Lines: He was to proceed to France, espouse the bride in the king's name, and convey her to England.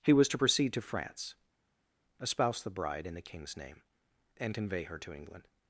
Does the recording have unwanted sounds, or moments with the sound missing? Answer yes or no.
no